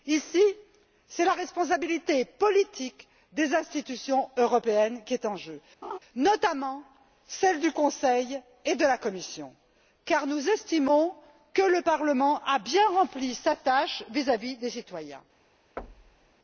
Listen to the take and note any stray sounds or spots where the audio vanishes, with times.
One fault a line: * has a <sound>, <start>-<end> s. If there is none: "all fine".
* has a laugh, 5.8-6.0 s
* has a thud, 15.8-16.3 s